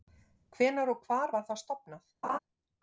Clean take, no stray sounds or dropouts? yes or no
no